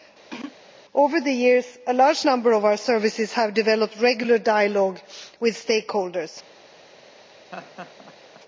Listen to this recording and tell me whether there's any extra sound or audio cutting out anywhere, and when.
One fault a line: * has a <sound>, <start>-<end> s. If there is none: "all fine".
* has a throat clearing, 0.3-0.6 s
* has a laugh, 7.5-8.4 s